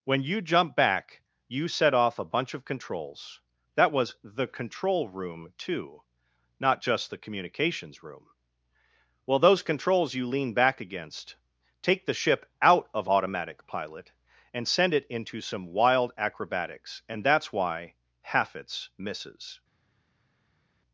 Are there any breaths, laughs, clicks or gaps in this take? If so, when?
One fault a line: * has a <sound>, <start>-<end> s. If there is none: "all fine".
all fine